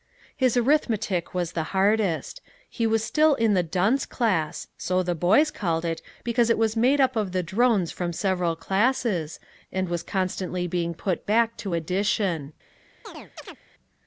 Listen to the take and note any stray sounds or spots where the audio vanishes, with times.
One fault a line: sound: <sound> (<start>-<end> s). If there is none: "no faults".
sound: chirp (13.0-13.6 s)